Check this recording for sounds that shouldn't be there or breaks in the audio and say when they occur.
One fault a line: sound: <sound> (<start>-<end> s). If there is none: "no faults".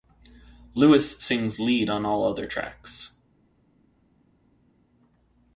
no faults